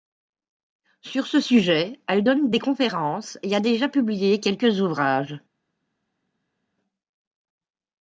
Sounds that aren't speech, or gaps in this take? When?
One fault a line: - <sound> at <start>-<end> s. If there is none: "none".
none